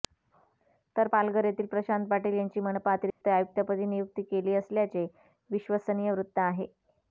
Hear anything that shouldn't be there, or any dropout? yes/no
yes